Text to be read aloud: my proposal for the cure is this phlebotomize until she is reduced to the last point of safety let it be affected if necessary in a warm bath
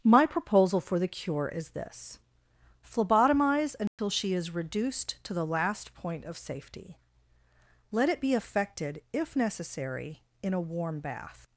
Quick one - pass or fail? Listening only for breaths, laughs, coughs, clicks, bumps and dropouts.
fail